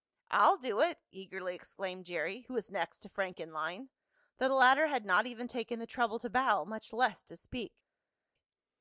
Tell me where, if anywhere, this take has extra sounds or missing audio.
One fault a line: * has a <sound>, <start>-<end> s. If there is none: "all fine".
all fine